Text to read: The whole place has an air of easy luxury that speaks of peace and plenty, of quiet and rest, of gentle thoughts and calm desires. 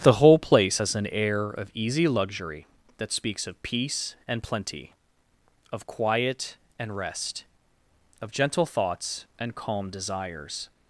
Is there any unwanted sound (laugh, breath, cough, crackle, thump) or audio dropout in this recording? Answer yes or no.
no